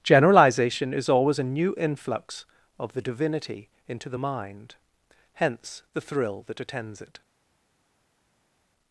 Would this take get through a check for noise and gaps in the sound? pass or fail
pass